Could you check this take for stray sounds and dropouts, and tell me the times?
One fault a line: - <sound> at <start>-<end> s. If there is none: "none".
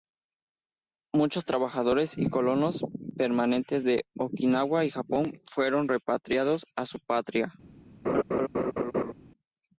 - laugh at 8.0-9.1 s